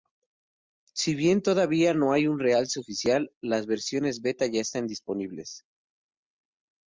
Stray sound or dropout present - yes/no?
no